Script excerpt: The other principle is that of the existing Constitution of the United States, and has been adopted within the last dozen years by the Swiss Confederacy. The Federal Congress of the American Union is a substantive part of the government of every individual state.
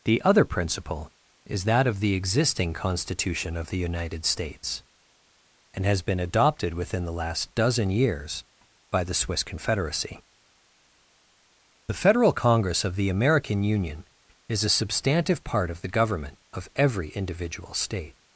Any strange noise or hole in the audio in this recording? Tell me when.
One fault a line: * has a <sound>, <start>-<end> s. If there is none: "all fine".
all fine